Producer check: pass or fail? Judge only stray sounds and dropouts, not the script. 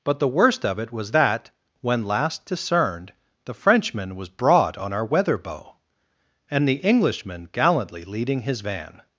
pass